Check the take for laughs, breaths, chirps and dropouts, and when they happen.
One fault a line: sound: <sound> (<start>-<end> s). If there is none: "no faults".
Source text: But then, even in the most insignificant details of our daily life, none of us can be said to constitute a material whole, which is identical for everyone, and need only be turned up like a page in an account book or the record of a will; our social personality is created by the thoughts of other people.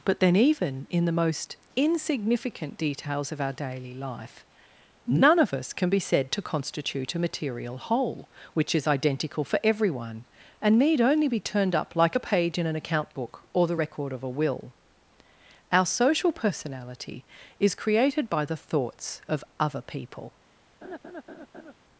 sound: laugh (20.8-21.7 s)